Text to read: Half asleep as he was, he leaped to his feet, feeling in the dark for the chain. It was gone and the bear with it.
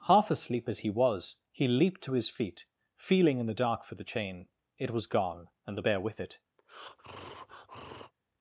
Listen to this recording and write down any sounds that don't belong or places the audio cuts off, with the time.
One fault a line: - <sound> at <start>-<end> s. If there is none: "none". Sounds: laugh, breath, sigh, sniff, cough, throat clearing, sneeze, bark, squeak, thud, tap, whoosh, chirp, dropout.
- breath at 6.6-8.1 s